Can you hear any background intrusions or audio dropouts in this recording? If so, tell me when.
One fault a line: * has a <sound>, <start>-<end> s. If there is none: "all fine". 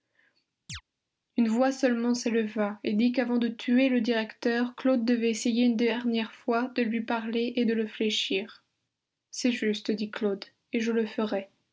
* has a chirp, 0.7-0.8 s